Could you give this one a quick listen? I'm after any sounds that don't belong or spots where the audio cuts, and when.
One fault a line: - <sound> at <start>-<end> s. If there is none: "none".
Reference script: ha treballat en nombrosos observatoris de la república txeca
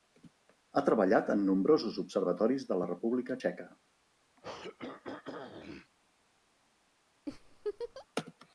- throat clearing at 4.4-5.9 s
- laugh at 7.3-8.1 s